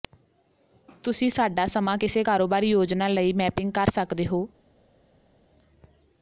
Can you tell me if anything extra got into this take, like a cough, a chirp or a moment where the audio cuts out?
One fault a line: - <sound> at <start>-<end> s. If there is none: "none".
none